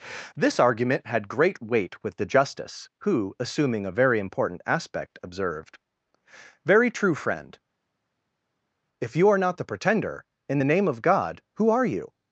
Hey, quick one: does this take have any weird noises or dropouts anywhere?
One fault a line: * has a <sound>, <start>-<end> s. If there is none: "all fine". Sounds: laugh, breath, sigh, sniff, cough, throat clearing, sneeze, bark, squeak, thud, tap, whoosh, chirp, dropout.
all fine